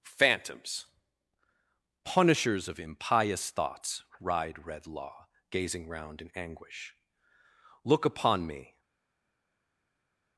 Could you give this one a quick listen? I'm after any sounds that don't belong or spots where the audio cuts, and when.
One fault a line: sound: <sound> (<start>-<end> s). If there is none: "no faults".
no faults